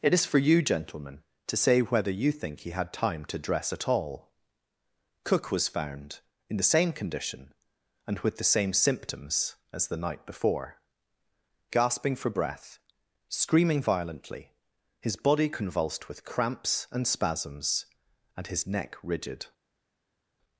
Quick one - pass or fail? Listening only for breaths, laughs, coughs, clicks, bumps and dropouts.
pass